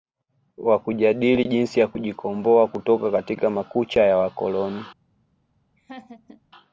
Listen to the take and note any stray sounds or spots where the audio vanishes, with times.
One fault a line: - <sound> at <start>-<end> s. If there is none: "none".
- laugh at 5.8-6.4 s